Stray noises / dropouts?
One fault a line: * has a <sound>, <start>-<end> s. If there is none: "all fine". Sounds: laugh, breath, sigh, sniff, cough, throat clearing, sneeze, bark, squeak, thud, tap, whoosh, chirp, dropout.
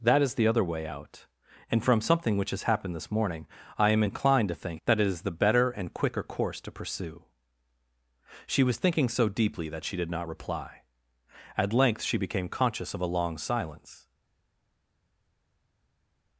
all fine